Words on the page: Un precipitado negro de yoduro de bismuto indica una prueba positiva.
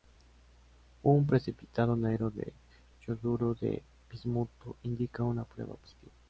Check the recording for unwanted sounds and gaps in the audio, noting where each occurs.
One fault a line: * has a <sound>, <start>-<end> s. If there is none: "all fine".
all fine